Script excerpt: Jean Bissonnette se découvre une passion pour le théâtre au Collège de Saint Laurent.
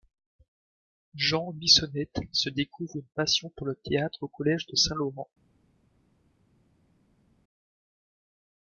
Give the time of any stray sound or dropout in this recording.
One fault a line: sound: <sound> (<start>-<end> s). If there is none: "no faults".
no faults